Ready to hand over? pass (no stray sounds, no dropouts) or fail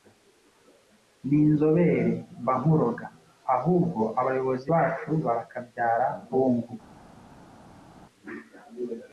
pass